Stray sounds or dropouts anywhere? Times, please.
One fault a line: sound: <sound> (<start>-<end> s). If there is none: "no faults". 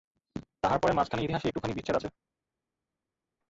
no faults